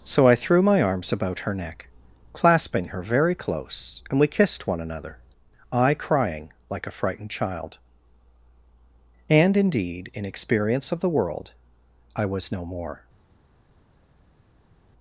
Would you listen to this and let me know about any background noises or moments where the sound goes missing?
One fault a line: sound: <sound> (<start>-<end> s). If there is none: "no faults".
no faults